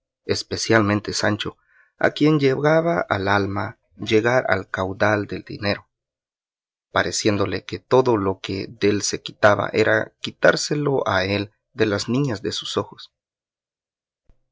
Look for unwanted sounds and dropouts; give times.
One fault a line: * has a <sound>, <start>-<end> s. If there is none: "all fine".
all fine